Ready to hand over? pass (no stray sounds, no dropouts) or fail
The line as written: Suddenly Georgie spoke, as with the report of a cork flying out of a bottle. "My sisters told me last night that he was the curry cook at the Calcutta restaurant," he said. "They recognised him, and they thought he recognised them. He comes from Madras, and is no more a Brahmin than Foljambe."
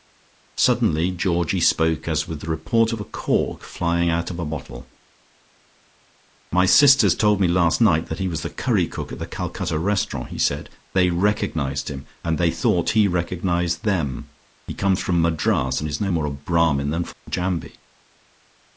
fail